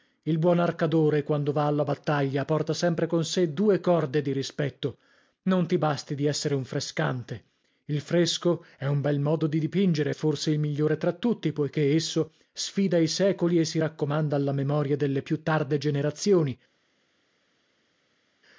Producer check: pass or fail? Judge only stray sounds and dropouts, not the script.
pass